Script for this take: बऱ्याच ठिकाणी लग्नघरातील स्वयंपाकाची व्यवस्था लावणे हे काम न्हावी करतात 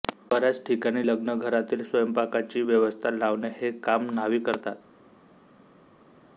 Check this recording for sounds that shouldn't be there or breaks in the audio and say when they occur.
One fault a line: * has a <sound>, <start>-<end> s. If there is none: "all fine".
all fine